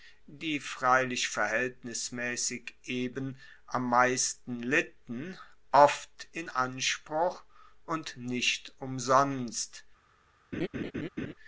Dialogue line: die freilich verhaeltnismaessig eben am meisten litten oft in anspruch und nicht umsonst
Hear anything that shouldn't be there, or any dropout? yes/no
yes